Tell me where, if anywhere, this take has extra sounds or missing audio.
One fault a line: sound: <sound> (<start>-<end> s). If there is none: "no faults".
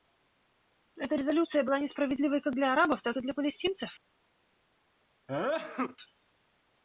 sound: sneeze (5.3-6.0 s)